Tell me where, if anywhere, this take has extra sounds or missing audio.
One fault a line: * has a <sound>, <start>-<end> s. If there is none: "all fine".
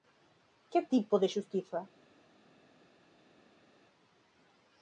all fine